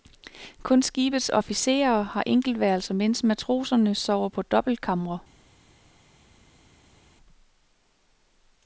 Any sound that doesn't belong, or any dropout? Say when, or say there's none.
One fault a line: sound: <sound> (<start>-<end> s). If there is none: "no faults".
no faults